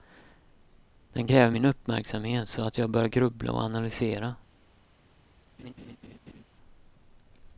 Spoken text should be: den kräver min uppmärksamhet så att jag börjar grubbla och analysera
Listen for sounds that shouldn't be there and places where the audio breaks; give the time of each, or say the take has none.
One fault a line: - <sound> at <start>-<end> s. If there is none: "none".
- laugh at 5.6-6.4 s